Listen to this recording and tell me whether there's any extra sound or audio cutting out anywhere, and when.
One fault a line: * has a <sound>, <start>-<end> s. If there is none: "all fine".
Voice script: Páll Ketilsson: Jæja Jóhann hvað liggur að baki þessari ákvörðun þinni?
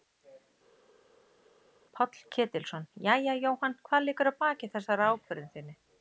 all fine